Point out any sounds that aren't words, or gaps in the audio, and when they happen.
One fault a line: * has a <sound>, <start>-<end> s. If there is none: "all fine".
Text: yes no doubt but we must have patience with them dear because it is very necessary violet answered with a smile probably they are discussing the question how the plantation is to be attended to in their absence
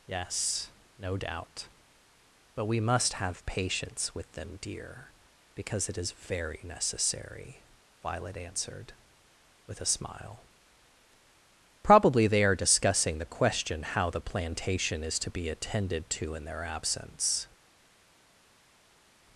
all fine